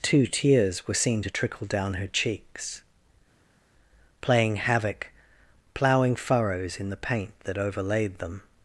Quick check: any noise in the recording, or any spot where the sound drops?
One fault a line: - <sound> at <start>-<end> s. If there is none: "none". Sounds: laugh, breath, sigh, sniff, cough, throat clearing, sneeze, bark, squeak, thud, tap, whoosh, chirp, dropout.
none